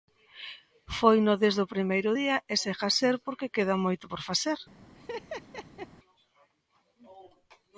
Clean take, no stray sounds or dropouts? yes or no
no